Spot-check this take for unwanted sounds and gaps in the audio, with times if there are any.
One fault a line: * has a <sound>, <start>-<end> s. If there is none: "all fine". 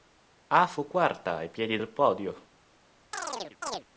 * has a chirp, 3.1-3.8 s